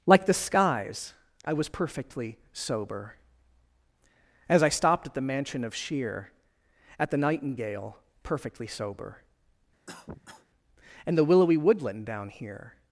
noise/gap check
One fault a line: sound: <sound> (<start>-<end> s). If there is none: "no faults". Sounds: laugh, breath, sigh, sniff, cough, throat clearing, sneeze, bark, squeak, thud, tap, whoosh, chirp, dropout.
sound: cough (9.9-10.5 s)